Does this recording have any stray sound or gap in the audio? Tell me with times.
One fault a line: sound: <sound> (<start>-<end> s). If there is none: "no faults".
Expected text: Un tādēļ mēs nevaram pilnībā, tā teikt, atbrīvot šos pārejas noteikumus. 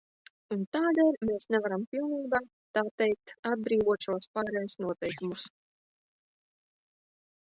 no faults